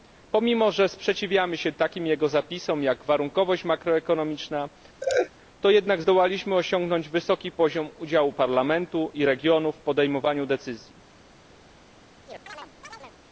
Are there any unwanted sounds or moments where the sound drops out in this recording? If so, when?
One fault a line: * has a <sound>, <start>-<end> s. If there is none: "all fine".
* has a laugh, 5.0-5.3 s
* has a chirp, 12.3-13.2 s